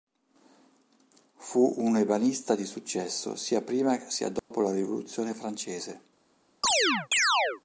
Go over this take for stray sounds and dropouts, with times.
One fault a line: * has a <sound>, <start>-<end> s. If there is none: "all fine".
* has a dropout, 4.4-4.5 s
* has a chirp, 6.6-7.6 s